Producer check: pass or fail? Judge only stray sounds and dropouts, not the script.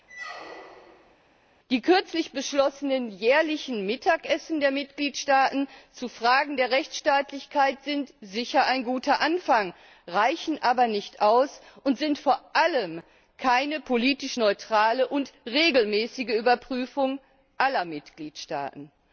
fail